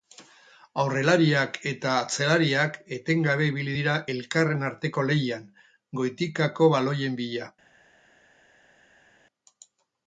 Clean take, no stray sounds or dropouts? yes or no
yes